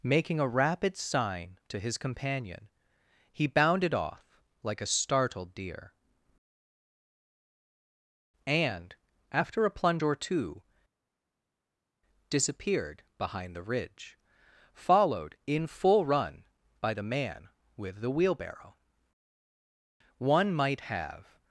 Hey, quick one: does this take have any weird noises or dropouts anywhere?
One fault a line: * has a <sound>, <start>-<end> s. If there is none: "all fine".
all fine